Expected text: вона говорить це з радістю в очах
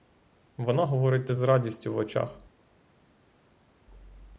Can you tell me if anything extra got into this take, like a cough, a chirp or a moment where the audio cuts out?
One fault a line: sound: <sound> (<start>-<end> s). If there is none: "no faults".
no faults